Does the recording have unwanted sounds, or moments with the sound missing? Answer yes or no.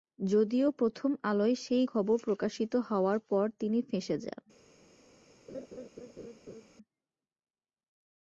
yes